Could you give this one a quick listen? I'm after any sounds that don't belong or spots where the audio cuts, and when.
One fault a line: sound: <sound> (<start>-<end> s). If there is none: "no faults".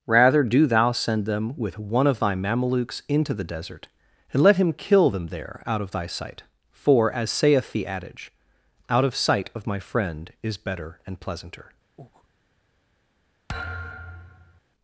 sound: breath (12.0-12.3 s)
sound: thud (13.5-14.6 s)